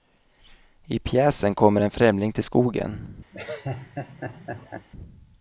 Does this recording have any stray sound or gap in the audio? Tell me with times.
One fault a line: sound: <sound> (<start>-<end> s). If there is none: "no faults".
sound: laugh (3.3-4.9 s)